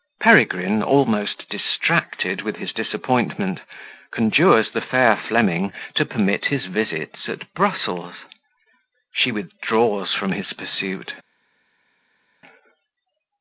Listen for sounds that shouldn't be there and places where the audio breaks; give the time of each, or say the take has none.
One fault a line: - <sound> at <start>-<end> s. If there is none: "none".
none